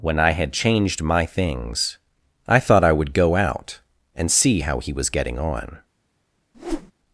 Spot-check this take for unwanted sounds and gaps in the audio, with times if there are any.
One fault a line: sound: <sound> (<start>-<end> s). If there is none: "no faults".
sound: whoosh (6.5-6.9 s)